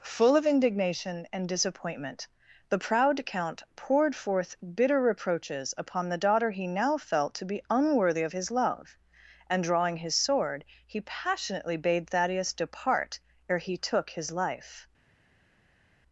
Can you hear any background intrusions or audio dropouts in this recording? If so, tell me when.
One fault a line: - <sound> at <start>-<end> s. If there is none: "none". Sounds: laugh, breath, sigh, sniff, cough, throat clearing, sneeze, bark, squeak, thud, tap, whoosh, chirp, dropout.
none